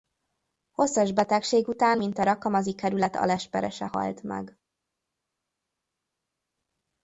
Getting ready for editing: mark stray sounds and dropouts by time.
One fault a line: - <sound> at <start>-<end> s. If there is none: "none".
none